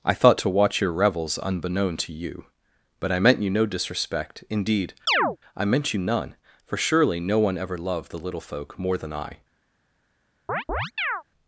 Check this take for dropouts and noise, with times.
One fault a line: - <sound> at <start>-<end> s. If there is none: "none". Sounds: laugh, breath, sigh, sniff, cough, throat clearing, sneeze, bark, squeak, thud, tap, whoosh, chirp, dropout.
- chirp at 5.1-5.4 s
- chirp at 10.5-11.2 s